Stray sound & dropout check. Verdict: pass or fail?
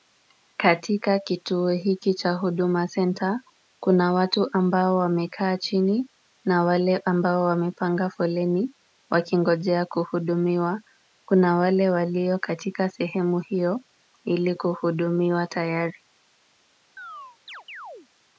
fail